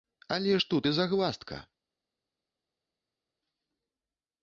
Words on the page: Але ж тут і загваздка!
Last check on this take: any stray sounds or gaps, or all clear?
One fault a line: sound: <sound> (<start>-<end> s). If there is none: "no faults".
no faults